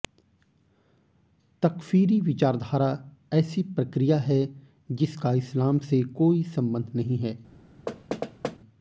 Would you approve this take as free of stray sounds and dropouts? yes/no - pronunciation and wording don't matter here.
no